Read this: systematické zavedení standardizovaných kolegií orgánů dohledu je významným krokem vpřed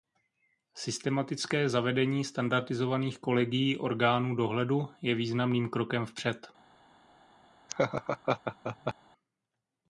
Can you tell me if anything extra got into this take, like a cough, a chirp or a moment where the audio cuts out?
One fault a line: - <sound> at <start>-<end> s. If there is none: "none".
- laugh at 7.7-8.9 s